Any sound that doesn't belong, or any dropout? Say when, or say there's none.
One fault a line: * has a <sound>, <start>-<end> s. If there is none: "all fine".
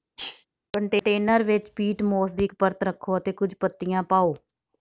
* has a sneeze, 0.2-0.5 s